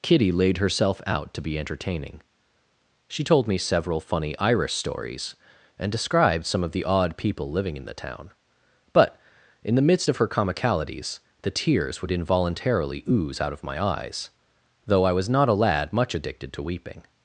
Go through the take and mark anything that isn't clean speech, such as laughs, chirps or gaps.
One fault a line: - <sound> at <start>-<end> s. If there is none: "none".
none